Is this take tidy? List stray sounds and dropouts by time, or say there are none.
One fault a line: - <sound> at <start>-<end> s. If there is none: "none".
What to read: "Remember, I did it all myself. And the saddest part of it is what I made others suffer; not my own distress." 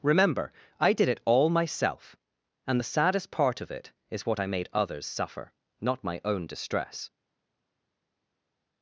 none